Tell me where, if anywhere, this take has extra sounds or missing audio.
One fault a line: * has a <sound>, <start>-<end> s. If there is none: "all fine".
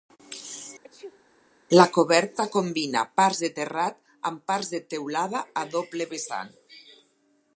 * has a sneeze, 0.8-1.2 s